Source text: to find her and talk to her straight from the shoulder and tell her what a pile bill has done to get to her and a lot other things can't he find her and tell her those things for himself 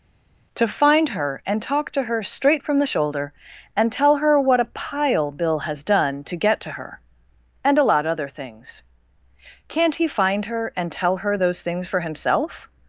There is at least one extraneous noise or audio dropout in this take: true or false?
false